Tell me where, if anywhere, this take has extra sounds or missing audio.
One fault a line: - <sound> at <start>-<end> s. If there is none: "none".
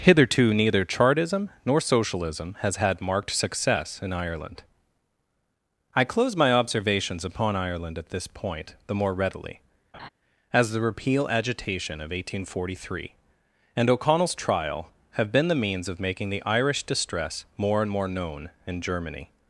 - laugh at 9.9-10.1 s